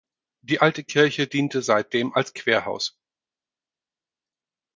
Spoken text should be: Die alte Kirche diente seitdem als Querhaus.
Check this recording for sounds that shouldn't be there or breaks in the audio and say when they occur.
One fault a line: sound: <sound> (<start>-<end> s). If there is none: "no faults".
no faults